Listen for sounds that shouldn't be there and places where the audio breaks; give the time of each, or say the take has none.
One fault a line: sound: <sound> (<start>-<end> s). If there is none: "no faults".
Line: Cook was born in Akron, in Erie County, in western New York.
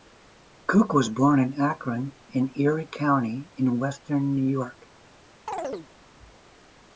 sound: chirp (5.5-5.9 s)